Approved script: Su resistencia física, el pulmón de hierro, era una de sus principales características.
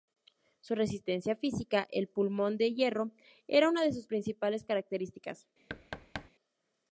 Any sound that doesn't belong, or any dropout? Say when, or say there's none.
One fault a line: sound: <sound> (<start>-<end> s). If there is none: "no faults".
sound: thud (5.7-6.3 s)